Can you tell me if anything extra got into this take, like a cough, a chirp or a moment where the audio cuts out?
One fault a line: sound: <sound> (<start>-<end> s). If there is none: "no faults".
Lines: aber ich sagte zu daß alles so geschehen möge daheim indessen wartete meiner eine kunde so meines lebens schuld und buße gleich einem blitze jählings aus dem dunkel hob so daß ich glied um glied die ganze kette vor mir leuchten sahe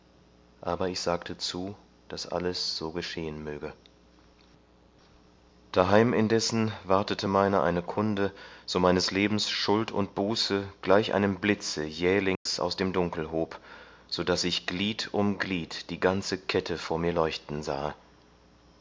sound: dropout (12.4-12.5 s)